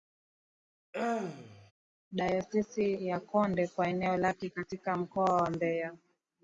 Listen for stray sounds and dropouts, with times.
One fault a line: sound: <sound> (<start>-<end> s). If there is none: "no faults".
sound: throat clearing (0.9-1.7 s)